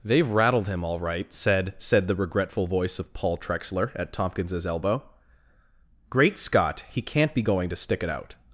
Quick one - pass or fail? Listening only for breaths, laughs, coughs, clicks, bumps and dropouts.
pass